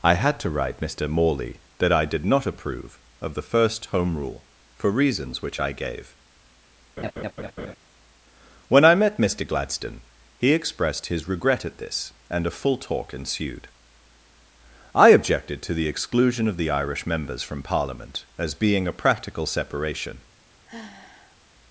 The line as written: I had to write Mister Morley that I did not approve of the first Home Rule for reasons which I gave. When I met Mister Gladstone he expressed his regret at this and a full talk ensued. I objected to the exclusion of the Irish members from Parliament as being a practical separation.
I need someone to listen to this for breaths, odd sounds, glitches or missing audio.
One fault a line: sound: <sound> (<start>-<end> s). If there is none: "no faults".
sound: laugh (7.0-7.8 s)
sound: sigh (20.7-21.4 s)